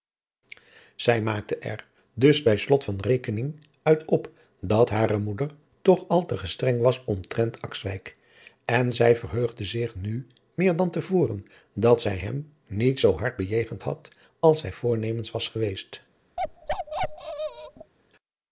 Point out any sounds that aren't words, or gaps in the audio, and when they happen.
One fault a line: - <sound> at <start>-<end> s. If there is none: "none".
- bark at 16.4-17.9 s